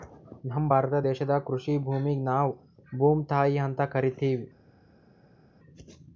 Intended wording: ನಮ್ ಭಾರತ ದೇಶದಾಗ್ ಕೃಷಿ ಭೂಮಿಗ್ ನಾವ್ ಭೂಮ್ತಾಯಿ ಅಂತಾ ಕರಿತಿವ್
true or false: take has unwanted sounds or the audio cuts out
false